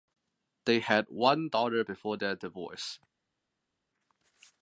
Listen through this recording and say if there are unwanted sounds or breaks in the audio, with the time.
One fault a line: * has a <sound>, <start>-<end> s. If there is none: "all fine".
all fine